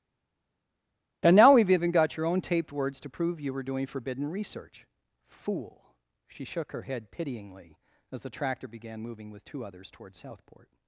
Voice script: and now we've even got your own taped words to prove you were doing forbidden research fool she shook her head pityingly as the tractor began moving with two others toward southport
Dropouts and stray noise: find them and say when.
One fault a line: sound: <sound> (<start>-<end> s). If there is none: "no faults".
no faults